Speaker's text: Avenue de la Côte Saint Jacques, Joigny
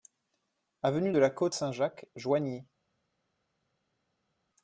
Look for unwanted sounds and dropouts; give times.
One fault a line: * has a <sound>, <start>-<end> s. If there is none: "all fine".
all fine